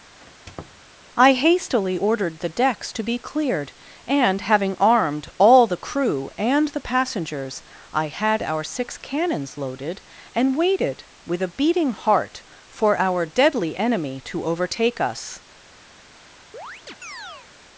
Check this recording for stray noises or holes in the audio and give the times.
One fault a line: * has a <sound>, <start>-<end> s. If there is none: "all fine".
* has a squeak, 0.2-0.8 s
* has a chirp, 16.5-17.5 s